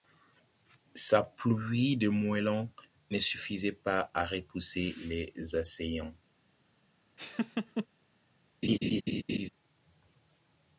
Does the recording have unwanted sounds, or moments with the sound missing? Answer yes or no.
yes